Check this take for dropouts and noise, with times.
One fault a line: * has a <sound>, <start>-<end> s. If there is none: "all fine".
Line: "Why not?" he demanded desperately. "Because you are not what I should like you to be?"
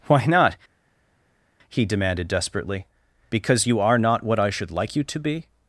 all fine